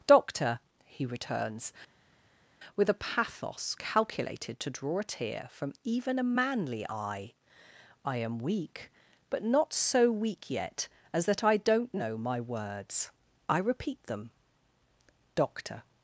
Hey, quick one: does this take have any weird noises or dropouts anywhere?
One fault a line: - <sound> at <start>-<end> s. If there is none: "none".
none